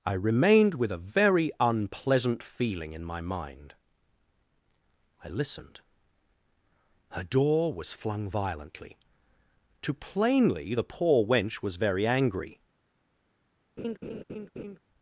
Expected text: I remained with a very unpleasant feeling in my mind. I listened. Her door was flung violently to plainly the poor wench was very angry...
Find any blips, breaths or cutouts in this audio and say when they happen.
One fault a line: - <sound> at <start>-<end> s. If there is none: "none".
- laugh at 13.8-14.8 s